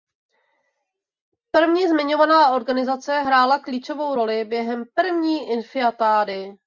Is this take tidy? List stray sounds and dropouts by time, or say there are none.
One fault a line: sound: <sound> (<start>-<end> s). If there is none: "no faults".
no faults